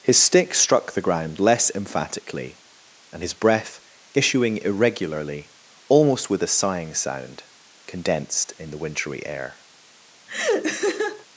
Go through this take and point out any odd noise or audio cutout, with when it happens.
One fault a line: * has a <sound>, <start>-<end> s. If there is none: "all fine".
* has a laugh, 10.3-11.3 s